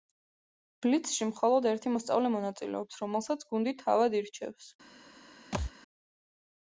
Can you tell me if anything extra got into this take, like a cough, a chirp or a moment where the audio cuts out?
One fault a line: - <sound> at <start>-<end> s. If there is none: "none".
- thud at 5.5-5.7 s